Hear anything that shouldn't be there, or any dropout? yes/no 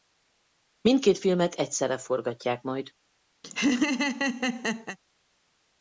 yes